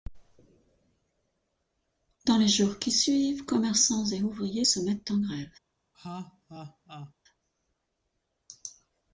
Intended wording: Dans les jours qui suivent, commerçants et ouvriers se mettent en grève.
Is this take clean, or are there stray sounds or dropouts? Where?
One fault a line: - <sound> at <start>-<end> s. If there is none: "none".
- laugh at 5.9-7.1 s